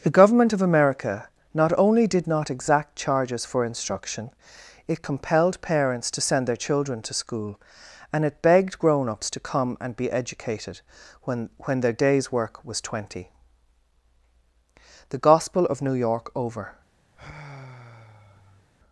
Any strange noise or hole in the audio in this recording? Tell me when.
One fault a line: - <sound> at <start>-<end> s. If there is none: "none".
- sigh at 17.1-18.7 s